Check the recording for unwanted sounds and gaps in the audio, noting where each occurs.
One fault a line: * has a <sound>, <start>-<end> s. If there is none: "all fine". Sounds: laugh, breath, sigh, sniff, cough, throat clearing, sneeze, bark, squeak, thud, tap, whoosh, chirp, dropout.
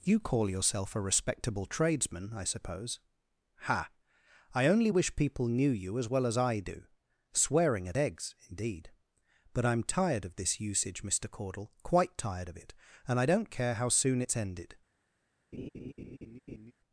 * has a laugh, 15.5-16.7 s